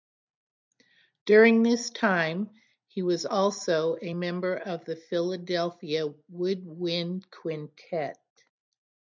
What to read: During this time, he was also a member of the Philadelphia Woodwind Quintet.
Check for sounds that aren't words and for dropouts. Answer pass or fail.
pass